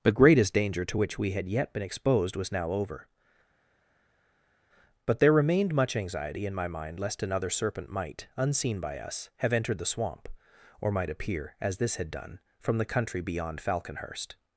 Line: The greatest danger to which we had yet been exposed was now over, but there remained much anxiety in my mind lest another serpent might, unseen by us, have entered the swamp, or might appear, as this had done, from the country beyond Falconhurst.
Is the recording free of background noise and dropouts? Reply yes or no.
yes